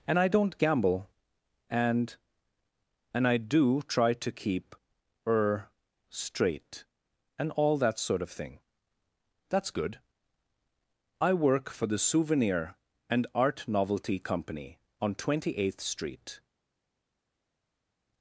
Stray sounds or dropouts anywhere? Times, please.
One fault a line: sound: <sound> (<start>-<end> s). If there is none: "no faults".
no faults